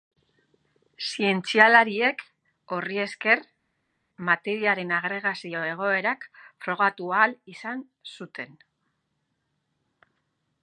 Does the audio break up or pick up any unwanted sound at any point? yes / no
no